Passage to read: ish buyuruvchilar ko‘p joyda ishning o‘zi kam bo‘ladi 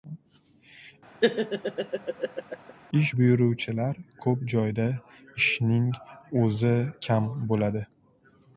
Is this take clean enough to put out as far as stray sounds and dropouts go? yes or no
no